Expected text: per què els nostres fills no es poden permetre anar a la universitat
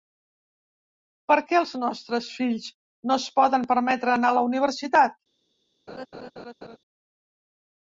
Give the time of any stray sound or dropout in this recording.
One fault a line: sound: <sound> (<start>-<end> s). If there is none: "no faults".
sound: laugh (5.9-6.8 s)